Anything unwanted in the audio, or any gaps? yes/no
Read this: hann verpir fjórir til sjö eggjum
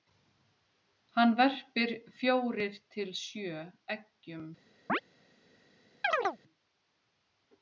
yes